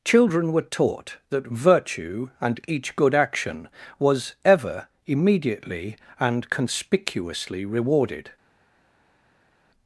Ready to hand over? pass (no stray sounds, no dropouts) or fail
pass